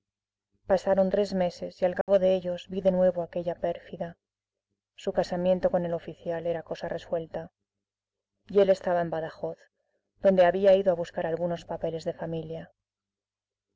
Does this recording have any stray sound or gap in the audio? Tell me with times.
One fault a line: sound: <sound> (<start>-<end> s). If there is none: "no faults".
sound: dropout (2.0-2.1 s)